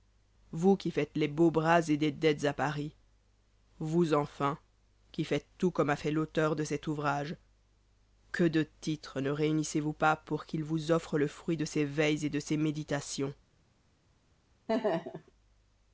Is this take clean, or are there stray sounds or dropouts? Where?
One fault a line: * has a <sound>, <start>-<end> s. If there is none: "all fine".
* has a laugh, 14.7-15.3 s